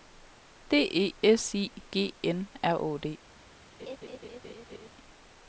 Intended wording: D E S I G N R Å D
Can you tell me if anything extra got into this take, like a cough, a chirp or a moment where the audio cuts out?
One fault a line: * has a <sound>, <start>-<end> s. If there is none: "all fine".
* has a laugh, 3.8-4.9 s